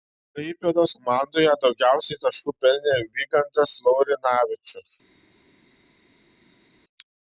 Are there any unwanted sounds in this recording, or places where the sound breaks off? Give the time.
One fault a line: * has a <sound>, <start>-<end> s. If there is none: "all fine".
all fine